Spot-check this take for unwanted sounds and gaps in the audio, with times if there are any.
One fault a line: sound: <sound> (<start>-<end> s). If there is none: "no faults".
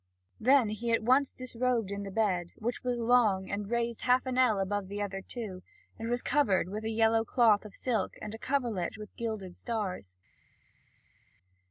no faults